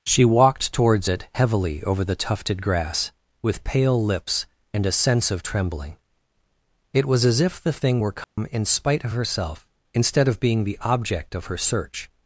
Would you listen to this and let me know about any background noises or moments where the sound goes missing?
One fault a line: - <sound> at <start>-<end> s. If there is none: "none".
- dropout at 8.2-8.4 s